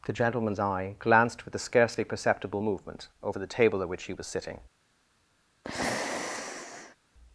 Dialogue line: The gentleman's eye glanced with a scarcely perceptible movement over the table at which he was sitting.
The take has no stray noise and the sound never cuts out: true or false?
false